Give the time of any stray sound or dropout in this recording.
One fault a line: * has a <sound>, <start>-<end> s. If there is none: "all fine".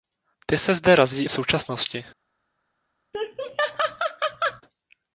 * has a laugh, 3.1-4.6 s